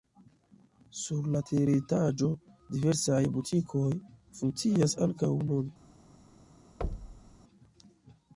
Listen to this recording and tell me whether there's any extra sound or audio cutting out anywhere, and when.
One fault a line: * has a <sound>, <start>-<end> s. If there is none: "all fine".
* has a thud, 6.8-7.4 s